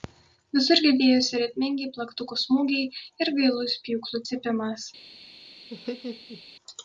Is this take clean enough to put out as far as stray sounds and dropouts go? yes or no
no